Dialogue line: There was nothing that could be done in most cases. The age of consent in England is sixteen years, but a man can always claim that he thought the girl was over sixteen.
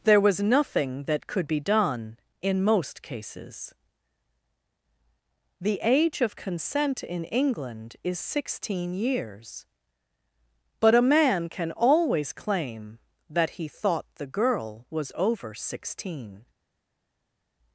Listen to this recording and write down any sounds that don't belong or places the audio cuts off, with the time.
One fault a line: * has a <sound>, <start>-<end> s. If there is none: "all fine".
all fine